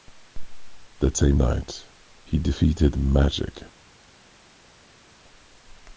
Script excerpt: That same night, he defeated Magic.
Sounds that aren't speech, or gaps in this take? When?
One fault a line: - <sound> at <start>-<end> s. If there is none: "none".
none